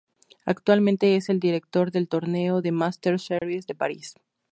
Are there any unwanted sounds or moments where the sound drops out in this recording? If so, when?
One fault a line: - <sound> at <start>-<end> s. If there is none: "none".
- dropout at 3.4-3.4 s